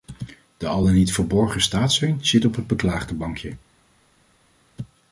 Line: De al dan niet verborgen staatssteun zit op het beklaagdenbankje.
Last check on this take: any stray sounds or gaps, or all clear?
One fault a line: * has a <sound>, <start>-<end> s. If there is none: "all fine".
all fine